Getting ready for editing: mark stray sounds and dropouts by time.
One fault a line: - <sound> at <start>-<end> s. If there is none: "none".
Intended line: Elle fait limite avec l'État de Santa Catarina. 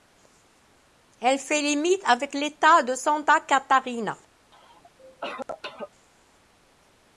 - cough at 4.5-5.9 s